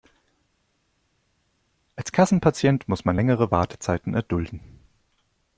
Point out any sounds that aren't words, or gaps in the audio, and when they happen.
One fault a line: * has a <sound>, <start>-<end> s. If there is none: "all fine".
all fine